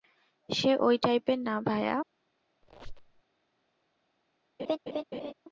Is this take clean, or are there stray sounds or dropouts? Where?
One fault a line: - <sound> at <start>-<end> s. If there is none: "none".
- squeak at 2.6-3.2 s
- laugh at 4.6-5.3 s